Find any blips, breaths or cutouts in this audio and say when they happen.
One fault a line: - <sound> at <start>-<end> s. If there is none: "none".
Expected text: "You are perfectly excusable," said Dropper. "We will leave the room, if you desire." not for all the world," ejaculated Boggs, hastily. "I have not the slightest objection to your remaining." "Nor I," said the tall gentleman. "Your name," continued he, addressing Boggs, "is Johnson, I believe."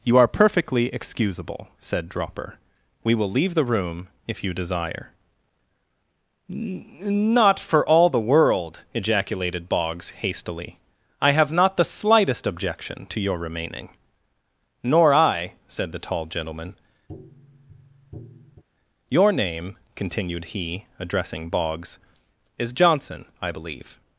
- tap at 17.1-18.6 s